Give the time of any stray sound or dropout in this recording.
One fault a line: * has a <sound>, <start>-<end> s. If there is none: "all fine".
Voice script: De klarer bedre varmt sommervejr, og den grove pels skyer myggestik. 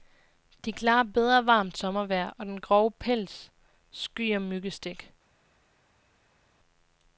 all fine